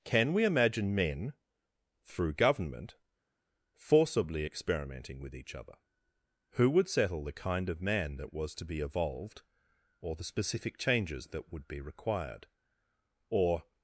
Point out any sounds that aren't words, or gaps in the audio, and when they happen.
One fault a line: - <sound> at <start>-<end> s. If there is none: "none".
none